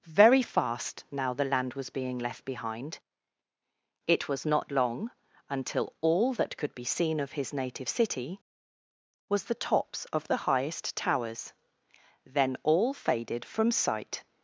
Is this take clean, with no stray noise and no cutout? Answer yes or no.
yes